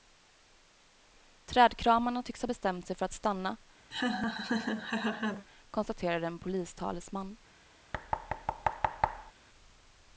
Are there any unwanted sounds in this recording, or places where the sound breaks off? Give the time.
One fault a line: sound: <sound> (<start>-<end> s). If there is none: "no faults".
sound: laugh (3.9-5.5 s)
sound: thud (7.9-9.3 s)